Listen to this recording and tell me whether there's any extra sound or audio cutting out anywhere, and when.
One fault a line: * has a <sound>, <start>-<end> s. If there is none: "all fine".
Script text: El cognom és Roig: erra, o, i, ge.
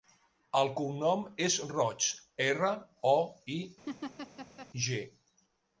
* has a laugh, 3.9-4.7 s